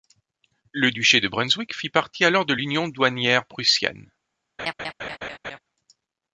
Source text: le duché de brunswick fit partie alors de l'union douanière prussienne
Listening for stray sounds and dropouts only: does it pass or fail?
fail